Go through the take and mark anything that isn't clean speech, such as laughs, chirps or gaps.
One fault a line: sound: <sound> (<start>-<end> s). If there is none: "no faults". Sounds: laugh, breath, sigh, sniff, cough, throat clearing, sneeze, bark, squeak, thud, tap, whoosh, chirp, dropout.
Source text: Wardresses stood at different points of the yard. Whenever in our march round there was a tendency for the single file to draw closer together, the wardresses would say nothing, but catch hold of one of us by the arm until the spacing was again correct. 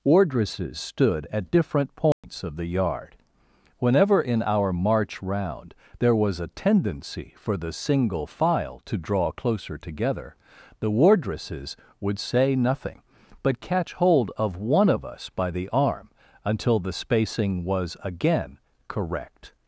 sound: dropout (2.1-2.2 s)